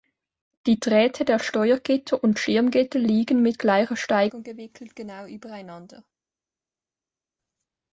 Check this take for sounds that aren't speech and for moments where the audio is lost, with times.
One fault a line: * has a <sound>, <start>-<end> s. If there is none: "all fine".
all fine